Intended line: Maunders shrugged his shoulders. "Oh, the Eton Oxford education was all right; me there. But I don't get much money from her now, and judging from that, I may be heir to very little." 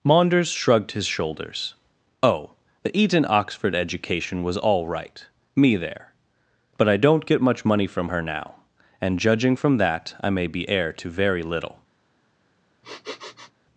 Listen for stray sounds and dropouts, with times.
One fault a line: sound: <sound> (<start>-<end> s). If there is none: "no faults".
sound: sniff (12.8-13.5 s)